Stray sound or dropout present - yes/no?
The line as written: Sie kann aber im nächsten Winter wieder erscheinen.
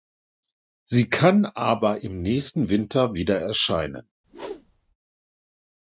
yes